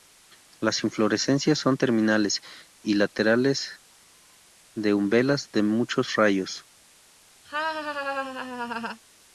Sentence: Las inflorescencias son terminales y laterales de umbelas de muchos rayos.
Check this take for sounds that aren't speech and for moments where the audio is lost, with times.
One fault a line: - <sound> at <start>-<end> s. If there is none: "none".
- laugh at 7.5-9.0 s